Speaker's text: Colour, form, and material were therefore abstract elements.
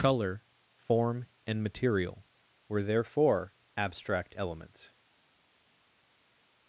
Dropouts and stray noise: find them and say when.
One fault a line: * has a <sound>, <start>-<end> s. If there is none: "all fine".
all fine